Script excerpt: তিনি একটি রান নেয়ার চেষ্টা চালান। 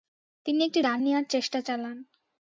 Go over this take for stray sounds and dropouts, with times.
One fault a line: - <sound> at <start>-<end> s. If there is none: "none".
none